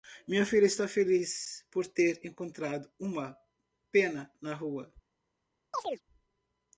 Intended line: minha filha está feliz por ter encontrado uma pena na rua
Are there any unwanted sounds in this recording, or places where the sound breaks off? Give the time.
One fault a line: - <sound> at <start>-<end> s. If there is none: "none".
- chirp at 5.7-6.0 s